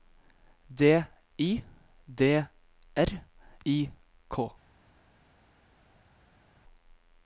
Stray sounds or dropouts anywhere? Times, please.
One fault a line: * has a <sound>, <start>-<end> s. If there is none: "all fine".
all fine